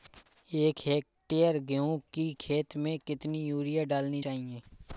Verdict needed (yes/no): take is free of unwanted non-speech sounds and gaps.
yes